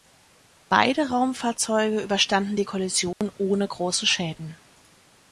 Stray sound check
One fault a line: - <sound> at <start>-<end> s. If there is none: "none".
- dropout at 3.1-3.2 s